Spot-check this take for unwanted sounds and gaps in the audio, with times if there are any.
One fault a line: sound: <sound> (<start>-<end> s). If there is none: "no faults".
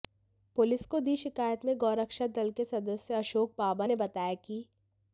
no faults